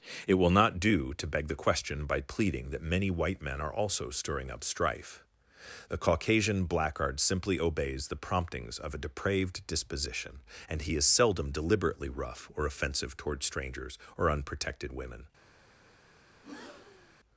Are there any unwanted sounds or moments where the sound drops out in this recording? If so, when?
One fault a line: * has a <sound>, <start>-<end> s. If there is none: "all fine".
* has a breath, 16.3-17.2 s